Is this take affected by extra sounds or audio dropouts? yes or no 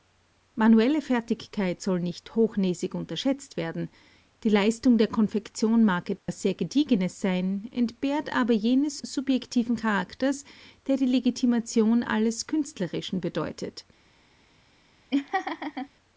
yes